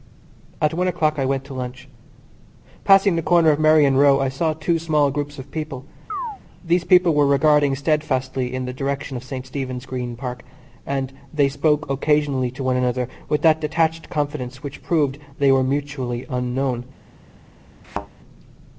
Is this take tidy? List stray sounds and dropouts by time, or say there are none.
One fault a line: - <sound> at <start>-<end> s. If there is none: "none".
- chirp at 6.1-6.4 s
- thud at 17.8-18.1 s